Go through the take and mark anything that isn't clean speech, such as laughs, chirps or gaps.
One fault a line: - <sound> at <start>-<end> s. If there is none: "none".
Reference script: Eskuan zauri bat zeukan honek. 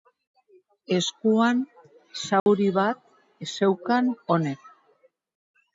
- dropout at 2.4-2.5 s